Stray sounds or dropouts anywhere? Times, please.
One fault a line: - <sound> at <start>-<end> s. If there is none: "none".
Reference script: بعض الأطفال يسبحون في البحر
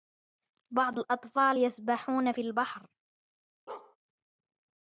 - bark at 3.7-4.0 s